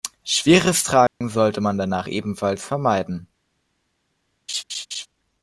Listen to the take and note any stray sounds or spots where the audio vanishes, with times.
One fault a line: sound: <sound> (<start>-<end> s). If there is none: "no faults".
sound: dropout (1.1-1.2 s)
sound: laugh (4.5-5.1 s)